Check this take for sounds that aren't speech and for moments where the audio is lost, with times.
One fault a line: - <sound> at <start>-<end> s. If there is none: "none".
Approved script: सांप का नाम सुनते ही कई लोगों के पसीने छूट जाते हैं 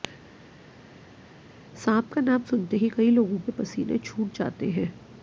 none